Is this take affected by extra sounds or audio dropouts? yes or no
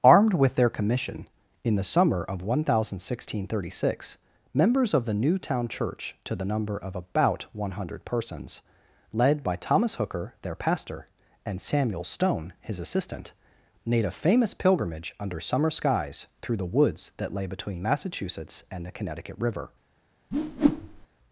yes